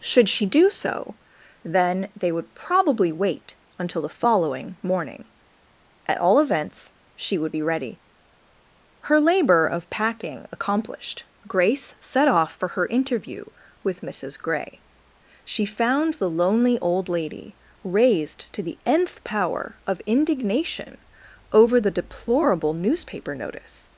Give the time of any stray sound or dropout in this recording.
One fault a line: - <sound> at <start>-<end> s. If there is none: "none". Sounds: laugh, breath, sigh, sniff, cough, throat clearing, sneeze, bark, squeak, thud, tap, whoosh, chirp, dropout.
none